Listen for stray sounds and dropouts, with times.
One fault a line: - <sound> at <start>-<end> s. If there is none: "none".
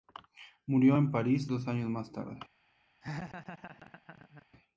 - laugh at 3.0-4.5 s